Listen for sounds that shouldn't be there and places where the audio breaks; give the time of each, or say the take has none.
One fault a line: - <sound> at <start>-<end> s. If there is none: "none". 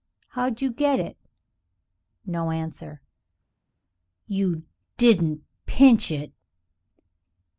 none